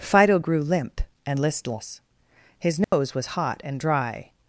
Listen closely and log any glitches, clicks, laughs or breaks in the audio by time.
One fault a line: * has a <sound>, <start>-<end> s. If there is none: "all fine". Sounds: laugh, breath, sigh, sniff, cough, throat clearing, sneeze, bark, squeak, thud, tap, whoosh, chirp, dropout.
* has a dropout, 2.8-2.9 s